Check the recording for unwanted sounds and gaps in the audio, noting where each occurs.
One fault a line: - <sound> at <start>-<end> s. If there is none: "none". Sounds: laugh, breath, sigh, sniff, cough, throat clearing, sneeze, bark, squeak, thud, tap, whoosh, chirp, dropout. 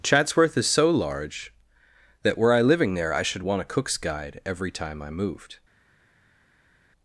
none